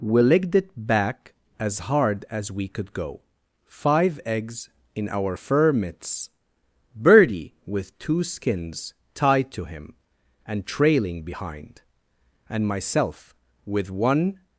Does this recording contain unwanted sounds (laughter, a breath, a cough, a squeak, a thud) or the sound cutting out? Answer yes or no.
no